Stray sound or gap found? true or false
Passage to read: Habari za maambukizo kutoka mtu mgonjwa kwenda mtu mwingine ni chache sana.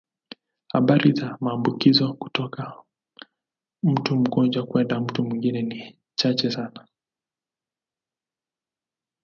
false